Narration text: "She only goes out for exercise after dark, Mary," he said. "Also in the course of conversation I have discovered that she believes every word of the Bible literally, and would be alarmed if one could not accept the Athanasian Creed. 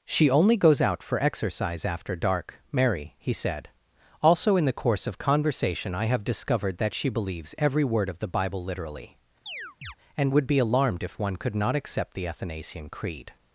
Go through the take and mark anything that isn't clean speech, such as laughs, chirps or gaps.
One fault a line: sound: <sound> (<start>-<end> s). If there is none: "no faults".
sound: chirp (9.5-10.0 s)